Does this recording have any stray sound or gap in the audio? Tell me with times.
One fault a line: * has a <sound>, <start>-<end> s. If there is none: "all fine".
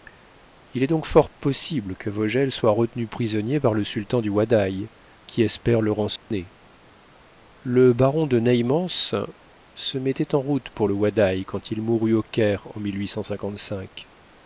* has a dropout, 6.2-6.3 s